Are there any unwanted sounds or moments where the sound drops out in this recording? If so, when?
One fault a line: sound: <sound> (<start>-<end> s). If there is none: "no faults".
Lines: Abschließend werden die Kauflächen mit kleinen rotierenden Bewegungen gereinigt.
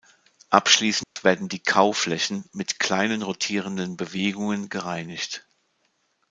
sound: dropout (1.0-1.2 s)